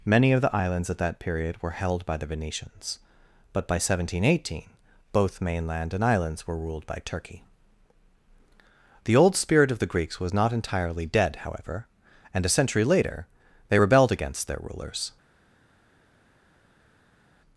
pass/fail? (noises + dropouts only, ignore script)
pass